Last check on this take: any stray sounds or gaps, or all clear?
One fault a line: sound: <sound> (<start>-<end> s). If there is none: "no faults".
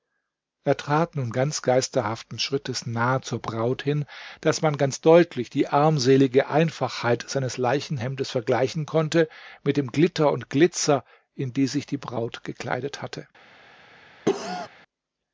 sound: cough (14.3-14.7 s)